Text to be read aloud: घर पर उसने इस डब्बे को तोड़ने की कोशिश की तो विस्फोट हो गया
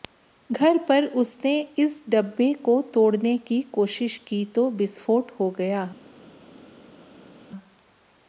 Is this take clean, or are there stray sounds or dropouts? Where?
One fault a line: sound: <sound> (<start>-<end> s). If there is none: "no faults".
no faults